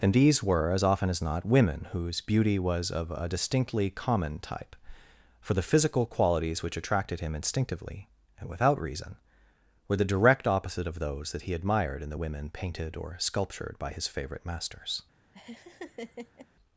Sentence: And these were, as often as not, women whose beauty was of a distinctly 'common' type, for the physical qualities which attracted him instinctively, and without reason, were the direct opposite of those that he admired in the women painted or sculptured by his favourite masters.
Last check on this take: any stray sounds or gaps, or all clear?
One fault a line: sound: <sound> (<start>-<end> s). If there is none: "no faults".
sound: laugh (15.3-16.5 s)